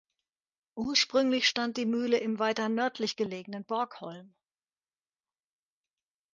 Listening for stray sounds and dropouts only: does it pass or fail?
pass